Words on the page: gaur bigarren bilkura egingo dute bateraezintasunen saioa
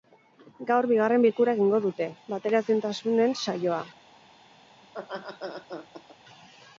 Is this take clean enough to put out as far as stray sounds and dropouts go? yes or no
no